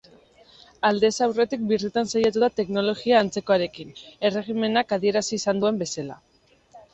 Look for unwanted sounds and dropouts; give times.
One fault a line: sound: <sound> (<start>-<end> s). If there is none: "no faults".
no faults